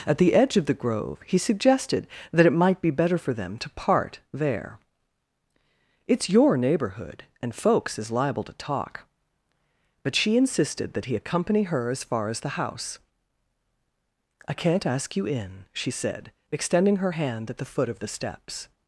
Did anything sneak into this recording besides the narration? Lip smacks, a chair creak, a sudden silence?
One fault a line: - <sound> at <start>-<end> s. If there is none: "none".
none